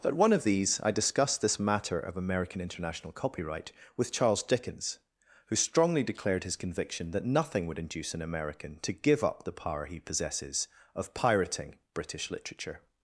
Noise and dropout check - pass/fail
pass